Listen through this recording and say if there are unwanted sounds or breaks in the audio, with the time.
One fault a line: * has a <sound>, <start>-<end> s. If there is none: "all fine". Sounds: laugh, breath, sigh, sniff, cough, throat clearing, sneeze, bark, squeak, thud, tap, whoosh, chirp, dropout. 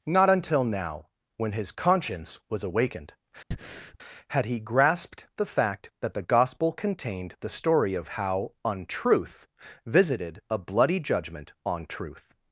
* has a breath, 3.5-4.0 s